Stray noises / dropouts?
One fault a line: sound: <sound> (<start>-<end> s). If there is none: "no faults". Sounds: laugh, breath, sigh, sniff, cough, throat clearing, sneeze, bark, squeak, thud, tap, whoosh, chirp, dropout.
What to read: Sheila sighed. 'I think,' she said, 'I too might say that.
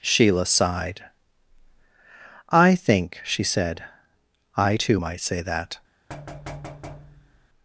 sound: thud (6.1-7.5 s)